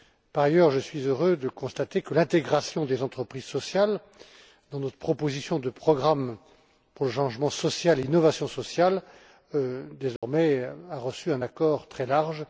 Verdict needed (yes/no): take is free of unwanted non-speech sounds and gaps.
no